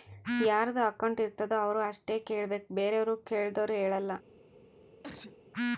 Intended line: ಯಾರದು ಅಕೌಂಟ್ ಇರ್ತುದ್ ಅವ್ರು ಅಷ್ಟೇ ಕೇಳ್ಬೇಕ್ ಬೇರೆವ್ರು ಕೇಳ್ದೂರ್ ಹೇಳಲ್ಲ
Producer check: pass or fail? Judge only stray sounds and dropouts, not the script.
fail